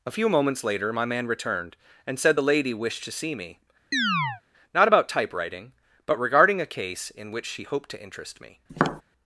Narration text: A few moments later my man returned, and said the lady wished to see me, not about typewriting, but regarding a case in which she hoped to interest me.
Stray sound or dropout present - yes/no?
yes